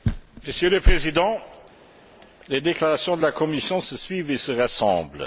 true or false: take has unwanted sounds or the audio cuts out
false